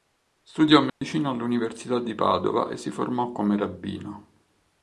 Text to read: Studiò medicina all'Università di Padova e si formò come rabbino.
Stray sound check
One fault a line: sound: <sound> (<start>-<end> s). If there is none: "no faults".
sound: dropout (0.9-1.0 s)